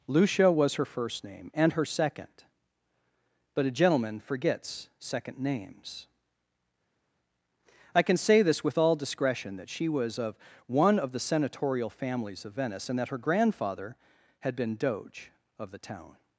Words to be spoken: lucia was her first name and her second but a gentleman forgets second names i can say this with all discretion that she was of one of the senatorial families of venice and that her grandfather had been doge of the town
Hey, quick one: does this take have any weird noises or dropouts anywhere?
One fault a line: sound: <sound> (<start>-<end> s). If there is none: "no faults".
no faults